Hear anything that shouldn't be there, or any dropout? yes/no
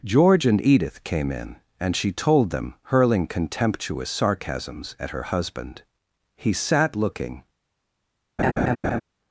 yes